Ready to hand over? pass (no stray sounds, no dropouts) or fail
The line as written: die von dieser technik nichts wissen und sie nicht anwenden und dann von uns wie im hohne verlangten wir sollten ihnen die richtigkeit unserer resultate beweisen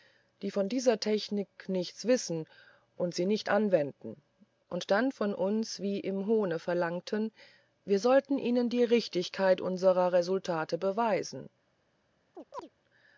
fail